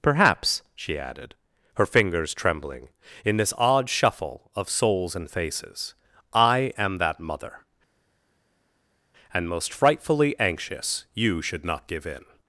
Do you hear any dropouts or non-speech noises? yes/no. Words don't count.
no